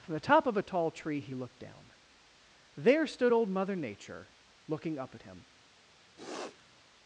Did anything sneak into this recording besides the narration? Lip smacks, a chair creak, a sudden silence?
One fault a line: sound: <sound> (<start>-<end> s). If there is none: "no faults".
sound: sniff (6.2-6.8 s)